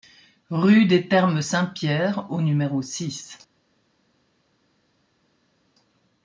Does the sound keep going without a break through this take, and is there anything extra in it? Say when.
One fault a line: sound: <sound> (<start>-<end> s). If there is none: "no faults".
no faults